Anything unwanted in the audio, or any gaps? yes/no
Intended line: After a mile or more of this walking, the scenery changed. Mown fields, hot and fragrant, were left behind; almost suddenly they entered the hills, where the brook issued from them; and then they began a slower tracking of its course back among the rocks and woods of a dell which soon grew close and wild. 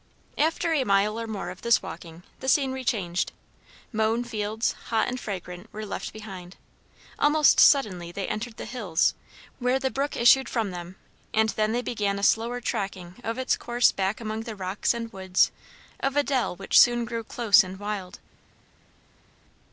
no